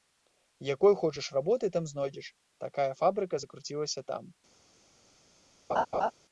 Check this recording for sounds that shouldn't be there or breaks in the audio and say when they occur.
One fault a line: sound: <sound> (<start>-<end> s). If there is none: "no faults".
sound: laugh (5.7-6.1 s)